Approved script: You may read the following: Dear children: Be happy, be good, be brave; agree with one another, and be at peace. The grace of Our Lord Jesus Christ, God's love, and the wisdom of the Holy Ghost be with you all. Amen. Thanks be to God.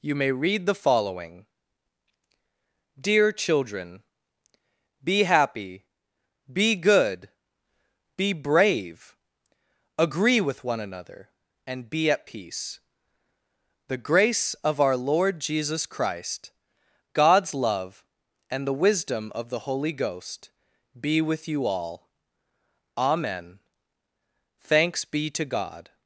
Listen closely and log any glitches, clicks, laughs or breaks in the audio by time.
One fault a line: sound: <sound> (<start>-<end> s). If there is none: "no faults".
no faults